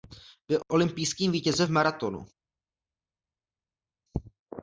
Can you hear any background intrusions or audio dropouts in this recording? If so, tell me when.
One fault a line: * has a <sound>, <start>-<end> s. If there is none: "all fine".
all fine